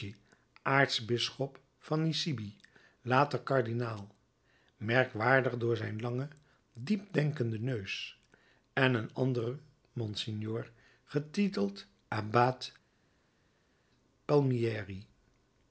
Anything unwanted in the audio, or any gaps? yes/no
no